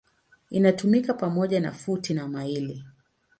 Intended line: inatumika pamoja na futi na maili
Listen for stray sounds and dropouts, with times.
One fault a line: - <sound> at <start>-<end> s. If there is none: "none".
none